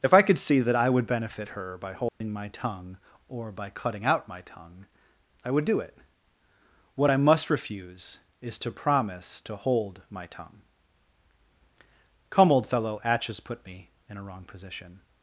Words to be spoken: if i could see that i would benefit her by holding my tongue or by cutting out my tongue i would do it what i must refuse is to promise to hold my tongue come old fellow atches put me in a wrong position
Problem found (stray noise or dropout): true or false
true